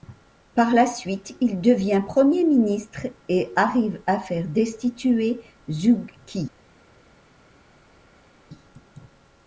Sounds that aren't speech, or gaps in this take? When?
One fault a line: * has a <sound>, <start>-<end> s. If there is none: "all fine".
all fine